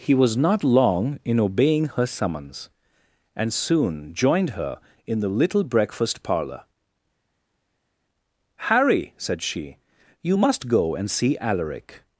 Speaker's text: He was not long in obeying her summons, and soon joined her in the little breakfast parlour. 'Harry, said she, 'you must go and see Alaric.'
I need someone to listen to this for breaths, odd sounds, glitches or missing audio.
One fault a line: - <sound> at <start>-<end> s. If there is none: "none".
none